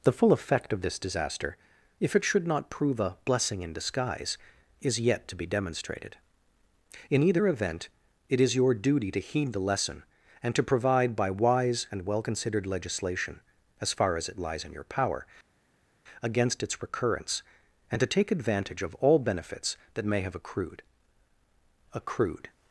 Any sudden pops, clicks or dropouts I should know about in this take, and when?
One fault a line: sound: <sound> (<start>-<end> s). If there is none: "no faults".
no faults